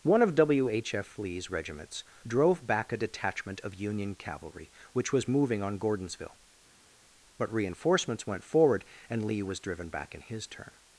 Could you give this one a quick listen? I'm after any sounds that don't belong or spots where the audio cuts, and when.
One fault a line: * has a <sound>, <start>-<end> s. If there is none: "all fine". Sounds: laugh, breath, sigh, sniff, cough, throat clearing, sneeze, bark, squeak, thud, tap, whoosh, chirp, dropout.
all fine